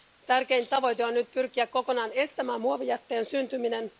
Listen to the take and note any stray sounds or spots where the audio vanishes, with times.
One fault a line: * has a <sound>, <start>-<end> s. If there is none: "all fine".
all fine